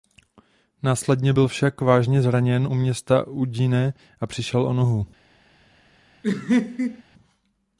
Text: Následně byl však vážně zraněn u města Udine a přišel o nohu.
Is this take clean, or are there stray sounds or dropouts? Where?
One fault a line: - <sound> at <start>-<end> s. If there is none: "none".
- laugh at 6.2-7.0 s